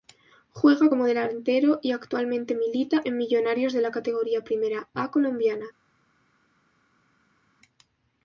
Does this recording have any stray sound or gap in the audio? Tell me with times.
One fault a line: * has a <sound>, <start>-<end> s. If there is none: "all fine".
all fine